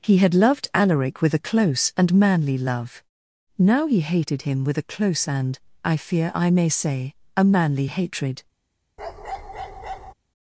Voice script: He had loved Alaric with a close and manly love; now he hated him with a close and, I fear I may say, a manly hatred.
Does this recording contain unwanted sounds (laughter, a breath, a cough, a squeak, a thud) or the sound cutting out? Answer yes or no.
yes